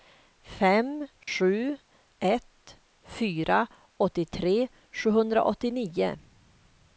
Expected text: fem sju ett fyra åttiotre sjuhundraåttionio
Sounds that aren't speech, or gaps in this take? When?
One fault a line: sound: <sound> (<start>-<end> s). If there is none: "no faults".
sound: dropout (1.2-1.3 s)